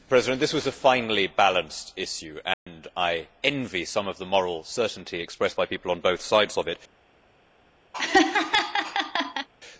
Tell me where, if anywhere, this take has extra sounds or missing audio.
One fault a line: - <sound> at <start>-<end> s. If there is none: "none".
- dropout at 2.5-2.7 s
- laugh at 7.9-9.5 s